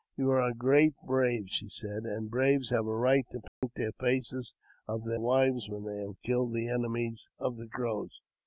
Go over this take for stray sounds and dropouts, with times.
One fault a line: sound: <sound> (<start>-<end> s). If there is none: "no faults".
sound: dropout (3.5-3.6 s)